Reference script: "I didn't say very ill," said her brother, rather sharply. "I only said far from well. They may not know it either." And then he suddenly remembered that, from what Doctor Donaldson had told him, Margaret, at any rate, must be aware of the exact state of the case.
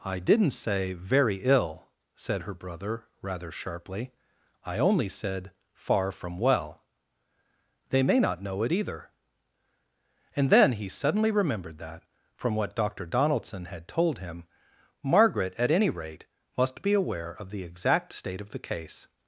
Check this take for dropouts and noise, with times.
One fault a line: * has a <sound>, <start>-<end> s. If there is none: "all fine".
all fine